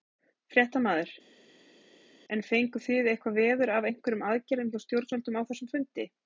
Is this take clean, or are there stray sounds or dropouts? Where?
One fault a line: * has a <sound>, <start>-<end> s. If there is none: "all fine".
all fine